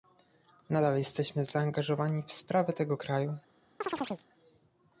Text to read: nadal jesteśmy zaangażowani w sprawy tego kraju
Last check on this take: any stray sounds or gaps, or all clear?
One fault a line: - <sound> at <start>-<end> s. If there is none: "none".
- chirp at 3.8-4.3 s